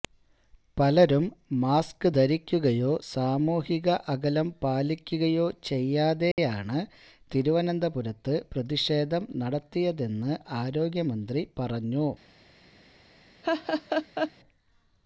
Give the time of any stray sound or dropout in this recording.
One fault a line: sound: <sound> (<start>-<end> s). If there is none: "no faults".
sound: dropout (6.3-6.4 s)
sound: laugh (13.4-14.3 s)